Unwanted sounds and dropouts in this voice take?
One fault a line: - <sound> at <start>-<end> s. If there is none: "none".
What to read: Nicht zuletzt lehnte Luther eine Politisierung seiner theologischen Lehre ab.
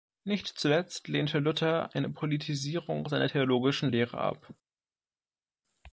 none